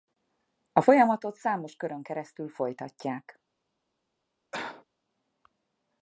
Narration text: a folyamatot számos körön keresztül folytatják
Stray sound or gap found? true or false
true